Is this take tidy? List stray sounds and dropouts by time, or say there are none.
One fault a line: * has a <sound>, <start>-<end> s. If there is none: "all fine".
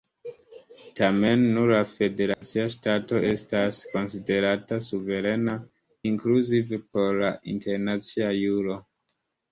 * has a dropout, 2.3-2.4 s